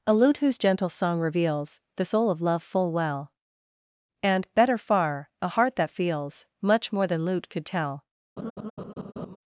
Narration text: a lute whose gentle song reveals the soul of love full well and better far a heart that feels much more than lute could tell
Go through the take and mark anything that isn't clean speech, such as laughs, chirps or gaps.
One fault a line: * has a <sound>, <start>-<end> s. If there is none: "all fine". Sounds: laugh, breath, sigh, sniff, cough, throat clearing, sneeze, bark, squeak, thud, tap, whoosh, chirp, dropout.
* has a laugh, 8.4-9.4 s